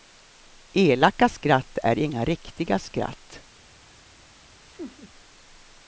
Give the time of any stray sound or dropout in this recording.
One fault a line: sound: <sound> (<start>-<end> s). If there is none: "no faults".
sound: laugh (4.7-5.1 s)